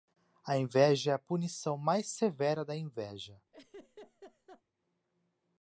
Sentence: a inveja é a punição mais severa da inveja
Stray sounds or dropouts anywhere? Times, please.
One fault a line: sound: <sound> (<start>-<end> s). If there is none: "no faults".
sound: laugh (3.5-4.6 s)